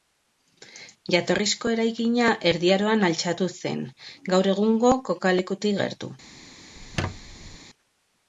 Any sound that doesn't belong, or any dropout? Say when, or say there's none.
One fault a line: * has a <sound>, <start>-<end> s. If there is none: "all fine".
* has a squeak, 6.8-7.6 s